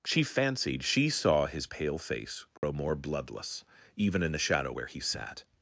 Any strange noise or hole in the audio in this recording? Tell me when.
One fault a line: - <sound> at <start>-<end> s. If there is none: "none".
- dropout at 2.6-2.6 s